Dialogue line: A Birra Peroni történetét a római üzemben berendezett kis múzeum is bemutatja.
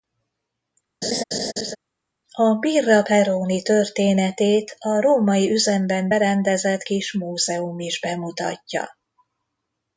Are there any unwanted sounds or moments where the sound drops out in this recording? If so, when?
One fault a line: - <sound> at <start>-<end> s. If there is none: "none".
- laugh at 1.0-1.8 s